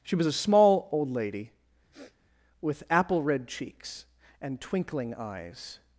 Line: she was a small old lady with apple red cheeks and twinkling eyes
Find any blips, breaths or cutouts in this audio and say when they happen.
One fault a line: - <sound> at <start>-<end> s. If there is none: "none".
- sniff at 1.9-2.2 s